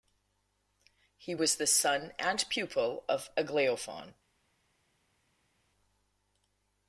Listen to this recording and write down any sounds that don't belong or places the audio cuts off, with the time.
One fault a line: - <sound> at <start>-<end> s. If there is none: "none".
none